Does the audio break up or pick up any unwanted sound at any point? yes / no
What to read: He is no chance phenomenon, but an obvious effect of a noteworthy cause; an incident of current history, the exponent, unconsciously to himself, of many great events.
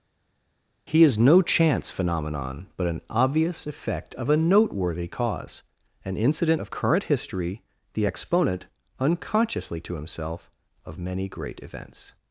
no